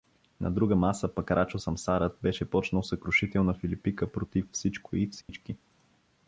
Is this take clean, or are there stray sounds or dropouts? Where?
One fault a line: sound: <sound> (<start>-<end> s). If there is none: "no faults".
sound: dropout (5.2-5.3 s)